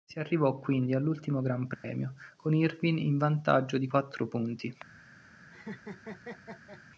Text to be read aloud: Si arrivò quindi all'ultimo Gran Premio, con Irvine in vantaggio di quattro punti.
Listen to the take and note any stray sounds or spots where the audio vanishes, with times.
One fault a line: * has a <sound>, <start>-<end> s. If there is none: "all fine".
* has a dropout, 1.7-1.8 s
* has a laugh, 5.5-6.8 s